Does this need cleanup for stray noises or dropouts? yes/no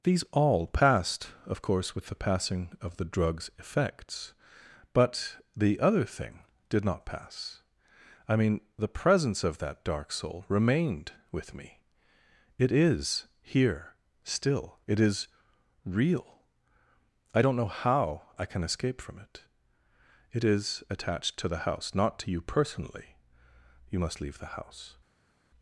no